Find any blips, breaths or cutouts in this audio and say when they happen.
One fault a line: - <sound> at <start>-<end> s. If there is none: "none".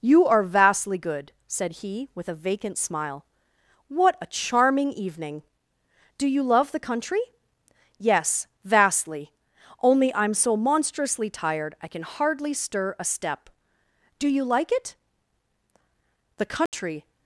- dropout at 16.7-16.7 s